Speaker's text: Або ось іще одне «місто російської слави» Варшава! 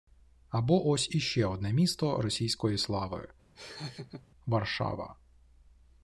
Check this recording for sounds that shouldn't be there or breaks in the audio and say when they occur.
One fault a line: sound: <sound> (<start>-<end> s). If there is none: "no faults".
sound: laugh (3.6-4.3 s)